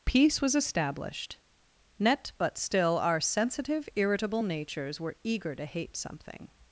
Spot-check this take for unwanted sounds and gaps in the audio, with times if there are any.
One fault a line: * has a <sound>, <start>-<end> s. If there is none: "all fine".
all fine